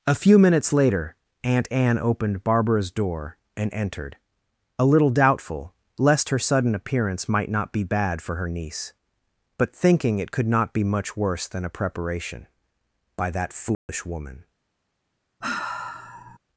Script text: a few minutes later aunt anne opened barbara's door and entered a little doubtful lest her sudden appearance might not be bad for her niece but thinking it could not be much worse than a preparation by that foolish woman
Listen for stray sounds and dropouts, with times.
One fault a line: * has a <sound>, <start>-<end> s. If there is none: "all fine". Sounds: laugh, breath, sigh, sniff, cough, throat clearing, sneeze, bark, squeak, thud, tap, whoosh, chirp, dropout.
* has a dropout, 13.7-13.9 s
* has a sigh, 15.4-16.4 s